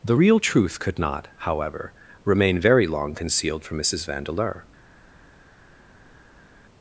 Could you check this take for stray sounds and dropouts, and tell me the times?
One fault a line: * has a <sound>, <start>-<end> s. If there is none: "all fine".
all fine